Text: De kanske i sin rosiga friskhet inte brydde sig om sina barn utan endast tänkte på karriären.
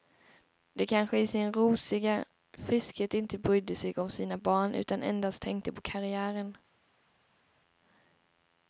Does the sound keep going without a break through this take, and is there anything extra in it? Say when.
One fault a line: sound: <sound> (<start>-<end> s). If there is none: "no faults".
no faults